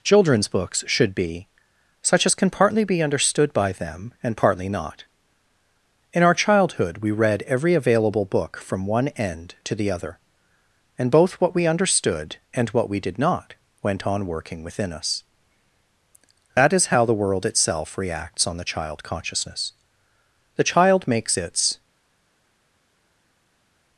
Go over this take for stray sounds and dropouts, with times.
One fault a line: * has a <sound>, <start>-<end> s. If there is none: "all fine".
all fine